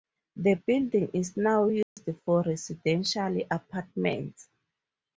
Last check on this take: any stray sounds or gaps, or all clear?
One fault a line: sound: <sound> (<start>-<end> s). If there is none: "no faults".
sound: dropout (1.8-2.0 s)